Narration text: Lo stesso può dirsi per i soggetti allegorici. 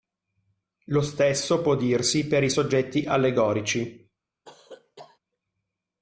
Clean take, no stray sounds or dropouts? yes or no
no